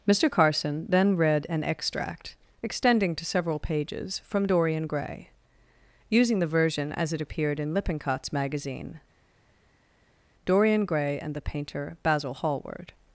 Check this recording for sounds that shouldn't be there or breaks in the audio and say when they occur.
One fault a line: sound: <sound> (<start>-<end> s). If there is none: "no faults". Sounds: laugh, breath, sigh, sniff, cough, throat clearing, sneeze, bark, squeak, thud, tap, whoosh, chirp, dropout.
no faults